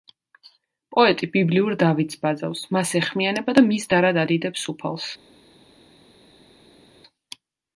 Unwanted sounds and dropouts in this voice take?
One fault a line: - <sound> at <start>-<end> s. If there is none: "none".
none